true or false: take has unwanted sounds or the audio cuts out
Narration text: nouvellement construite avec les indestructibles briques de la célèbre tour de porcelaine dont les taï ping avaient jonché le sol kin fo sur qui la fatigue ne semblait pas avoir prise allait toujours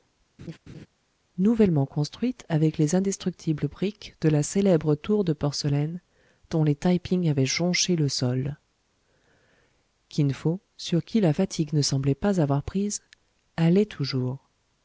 true